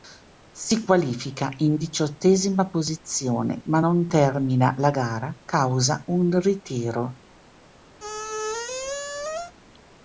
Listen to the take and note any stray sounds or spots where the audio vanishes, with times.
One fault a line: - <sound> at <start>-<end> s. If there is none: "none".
- squeak at 8.0-9.5 s